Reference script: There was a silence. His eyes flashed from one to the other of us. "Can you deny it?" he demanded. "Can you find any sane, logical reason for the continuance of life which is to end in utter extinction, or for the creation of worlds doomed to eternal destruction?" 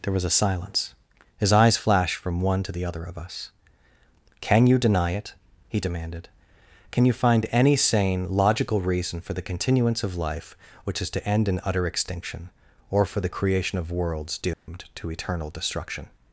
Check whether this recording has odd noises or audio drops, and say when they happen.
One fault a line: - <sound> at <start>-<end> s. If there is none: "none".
- dropout at 14.5-14.7 s